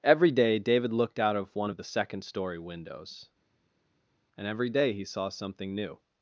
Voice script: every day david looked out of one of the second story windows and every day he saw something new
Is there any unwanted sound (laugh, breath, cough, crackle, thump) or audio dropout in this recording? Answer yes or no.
no